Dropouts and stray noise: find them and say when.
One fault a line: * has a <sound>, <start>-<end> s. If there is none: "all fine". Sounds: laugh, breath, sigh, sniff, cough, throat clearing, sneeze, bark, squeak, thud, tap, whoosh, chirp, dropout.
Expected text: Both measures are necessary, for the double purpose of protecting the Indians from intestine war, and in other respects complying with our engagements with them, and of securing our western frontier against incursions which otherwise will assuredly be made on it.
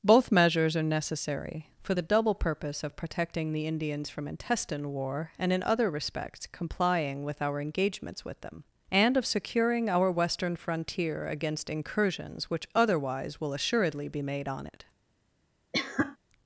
* has a cough, 15.7-16.2 s